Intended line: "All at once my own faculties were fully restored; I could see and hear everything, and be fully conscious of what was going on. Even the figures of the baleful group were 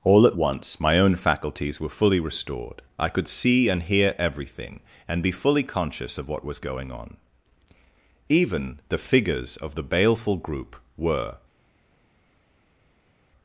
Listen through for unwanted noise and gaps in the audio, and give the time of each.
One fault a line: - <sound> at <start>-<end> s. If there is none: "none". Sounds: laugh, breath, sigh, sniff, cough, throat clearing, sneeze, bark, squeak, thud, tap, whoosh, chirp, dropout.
none